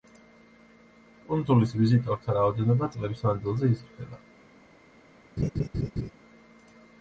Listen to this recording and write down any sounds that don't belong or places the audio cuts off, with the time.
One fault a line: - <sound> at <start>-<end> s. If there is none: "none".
- laugh at 5.4-6.1 s